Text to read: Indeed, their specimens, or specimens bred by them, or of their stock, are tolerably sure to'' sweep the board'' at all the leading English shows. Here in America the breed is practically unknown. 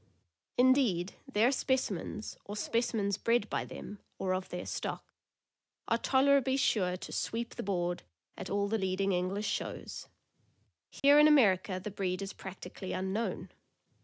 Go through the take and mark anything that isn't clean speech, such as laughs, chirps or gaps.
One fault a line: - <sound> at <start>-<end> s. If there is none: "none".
- dropout at 11.0-11.0 s